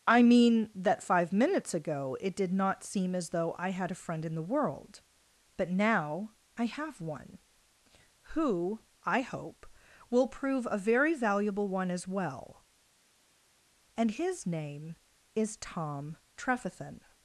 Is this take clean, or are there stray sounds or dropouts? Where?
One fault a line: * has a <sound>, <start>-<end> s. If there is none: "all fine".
all fine